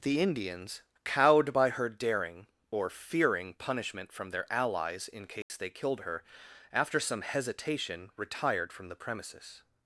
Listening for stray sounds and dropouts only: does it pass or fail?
fail